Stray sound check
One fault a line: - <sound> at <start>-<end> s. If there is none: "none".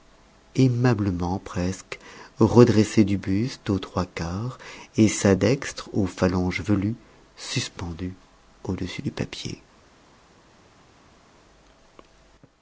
none